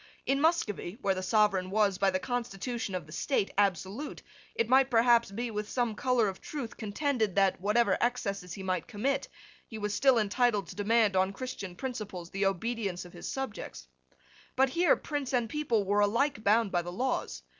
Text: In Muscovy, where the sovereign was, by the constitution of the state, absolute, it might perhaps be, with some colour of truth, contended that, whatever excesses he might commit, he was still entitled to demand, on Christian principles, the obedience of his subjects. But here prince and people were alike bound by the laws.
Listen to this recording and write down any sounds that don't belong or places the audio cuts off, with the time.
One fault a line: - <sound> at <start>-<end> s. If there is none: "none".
none